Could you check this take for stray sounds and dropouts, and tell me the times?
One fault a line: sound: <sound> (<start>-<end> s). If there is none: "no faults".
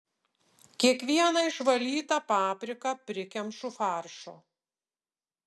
no faults